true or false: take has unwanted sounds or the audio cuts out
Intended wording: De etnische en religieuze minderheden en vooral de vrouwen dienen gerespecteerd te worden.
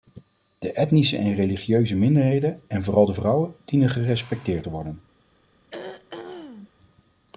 true